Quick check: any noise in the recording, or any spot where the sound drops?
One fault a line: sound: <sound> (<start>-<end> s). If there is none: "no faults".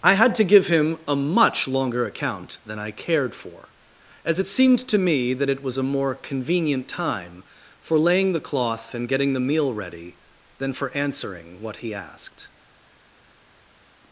no faults